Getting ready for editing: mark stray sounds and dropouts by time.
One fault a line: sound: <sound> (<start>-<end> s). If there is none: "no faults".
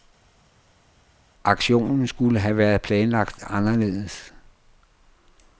no faults